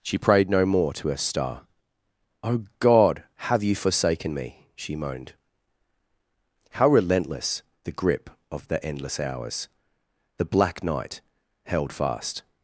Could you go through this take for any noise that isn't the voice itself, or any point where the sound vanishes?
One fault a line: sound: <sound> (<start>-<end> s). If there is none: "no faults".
no faults